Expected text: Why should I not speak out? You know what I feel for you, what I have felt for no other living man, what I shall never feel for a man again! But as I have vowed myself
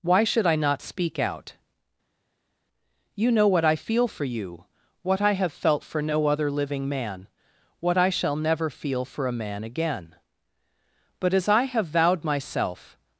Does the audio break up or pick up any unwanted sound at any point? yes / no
no